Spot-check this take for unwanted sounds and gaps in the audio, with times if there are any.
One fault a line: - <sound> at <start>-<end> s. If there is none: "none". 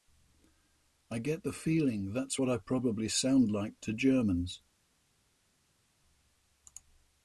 none